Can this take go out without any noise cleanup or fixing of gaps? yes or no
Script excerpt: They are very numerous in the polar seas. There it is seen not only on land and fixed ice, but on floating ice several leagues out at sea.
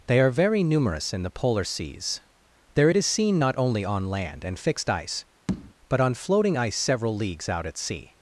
no